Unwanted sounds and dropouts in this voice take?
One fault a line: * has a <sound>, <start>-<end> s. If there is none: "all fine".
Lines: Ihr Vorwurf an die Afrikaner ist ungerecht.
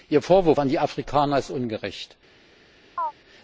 * has a chirp, 3.0-3.1 s